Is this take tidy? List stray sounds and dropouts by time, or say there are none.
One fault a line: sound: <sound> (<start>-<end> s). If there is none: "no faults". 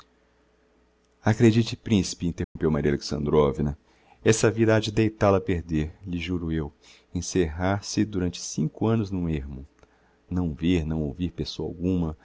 sound: dropout (2.4-2.6 s)